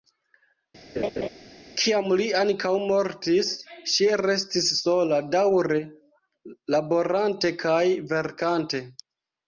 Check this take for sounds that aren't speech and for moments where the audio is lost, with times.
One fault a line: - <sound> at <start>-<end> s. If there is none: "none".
- laugh at 1.0-1.3 s